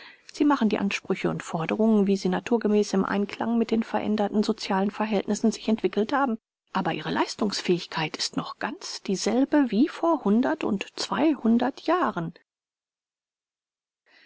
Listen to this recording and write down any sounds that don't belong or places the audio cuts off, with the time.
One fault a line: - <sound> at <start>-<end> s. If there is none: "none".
none